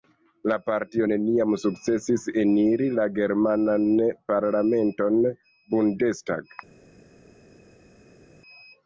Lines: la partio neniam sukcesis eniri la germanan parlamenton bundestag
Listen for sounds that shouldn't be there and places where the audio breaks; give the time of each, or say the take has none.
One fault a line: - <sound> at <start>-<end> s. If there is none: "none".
none